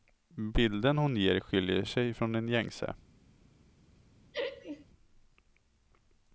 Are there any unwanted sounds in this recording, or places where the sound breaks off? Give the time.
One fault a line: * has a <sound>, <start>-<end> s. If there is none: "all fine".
* has a laugh, 4.3-4.9 s